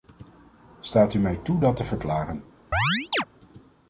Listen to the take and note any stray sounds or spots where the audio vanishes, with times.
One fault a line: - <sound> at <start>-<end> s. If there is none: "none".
- chirp at 2.7-3.2 s